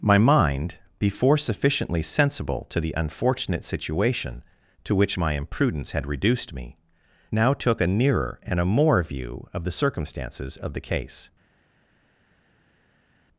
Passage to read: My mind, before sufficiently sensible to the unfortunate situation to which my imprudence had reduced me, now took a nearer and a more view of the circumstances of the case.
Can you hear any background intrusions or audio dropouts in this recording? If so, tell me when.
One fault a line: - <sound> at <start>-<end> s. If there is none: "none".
none